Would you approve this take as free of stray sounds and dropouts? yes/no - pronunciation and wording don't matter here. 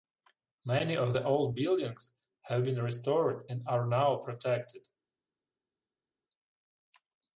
yes